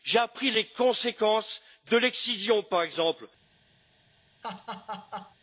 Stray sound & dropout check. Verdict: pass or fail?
fail